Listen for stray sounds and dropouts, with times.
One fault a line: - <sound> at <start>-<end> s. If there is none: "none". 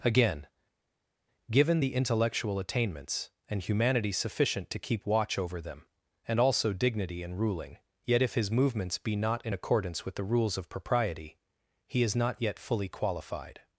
none